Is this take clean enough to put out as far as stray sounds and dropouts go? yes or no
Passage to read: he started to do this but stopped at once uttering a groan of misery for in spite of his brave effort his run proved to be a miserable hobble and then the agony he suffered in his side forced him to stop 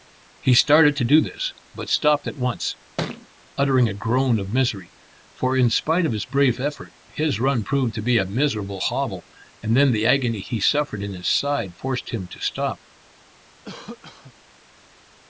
no